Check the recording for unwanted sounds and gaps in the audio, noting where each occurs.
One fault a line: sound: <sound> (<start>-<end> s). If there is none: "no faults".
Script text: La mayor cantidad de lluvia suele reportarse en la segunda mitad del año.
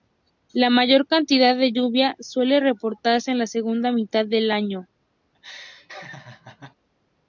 sound: laugh (5.3-6.8 s)